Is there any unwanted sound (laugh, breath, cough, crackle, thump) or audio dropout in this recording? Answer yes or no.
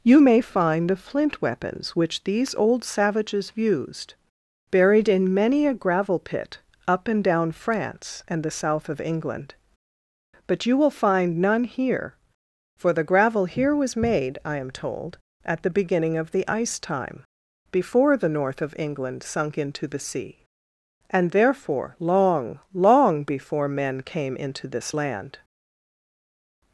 no